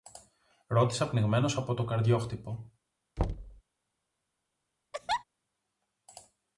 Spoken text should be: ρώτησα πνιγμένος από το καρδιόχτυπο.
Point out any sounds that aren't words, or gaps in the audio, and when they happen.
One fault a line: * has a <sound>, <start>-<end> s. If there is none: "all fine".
* has a thud, 3.2-3.6 s
* has a laugh, 4.9-5.2 s